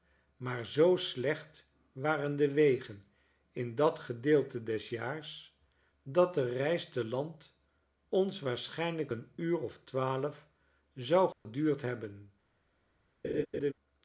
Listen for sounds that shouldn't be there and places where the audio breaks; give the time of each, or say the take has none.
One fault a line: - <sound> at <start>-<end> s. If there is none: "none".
- dropout at 11.3-11.5 s
- laugh at 13.2-13.7 s